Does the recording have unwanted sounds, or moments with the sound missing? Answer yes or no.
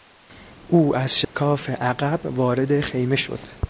yes